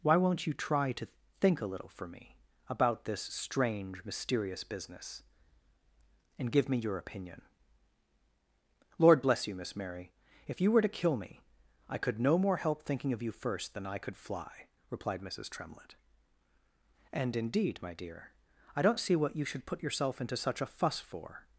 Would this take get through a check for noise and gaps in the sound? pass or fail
pass